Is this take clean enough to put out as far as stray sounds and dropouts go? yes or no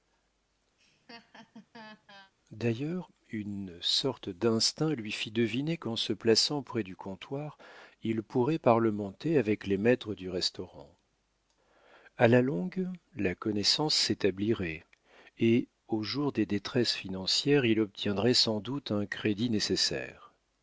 no